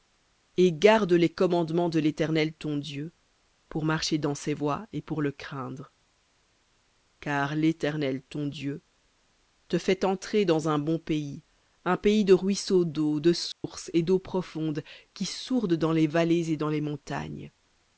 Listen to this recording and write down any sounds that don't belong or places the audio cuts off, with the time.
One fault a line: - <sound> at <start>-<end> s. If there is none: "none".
- dropout at 13.5-13.6 s